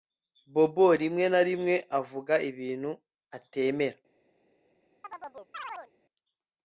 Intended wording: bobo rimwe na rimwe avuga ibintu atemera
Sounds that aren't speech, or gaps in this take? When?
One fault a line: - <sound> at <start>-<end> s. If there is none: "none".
- chirp at 5.0-5.9 s